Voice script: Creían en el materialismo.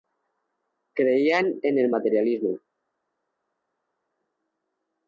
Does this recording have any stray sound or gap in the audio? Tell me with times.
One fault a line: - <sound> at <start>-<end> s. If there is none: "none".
none